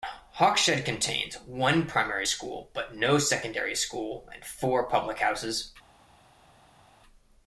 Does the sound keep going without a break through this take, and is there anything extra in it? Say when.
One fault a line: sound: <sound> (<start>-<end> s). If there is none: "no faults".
no faults